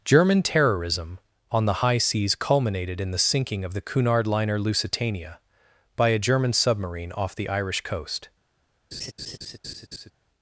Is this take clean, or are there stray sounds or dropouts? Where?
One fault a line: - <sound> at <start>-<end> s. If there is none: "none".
- laugh at 8.9-10.1 s